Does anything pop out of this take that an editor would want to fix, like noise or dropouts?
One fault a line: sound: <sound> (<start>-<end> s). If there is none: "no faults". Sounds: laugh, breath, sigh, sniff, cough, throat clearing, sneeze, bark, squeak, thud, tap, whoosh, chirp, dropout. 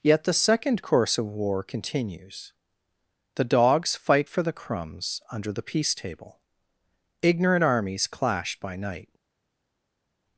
no faults